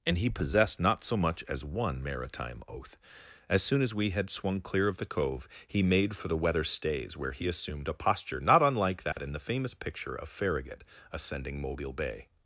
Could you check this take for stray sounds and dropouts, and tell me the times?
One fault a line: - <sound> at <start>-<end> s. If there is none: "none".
- dropout at 9.1-9.2 s